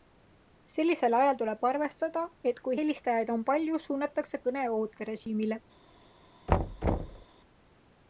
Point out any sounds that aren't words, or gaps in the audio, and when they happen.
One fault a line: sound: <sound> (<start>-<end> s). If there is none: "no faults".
sound: thud (6.5-7.2 s)